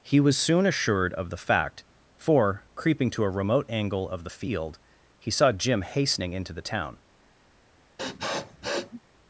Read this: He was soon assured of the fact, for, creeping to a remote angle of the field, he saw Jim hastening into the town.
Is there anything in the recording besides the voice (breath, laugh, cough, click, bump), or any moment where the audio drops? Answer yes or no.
yes